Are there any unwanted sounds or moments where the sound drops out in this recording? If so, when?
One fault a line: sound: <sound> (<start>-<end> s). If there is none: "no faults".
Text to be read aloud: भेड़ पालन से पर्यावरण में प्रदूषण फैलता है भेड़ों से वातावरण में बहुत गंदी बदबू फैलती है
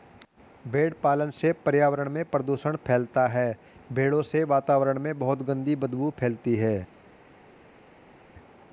no faults